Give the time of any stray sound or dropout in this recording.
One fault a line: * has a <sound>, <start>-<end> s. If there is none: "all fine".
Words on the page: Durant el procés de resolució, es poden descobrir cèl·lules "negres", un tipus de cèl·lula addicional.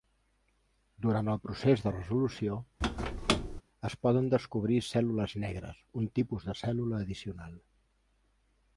* has a squeak, 2.8-3.6 s